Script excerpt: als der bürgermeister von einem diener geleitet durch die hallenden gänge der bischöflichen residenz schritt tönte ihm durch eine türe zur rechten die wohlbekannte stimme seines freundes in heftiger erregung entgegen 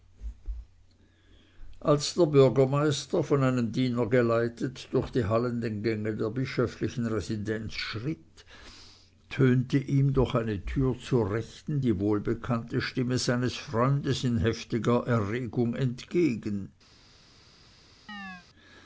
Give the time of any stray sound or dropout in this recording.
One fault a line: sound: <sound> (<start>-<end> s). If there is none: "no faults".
sound: chirp (18.1-18.5 s)